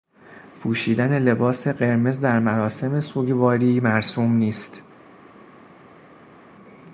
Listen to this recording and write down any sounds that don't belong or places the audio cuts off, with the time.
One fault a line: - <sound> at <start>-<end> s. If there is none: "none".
none